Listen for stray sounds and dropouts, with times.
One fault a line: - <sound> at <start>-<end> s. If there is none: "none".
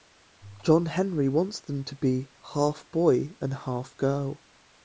none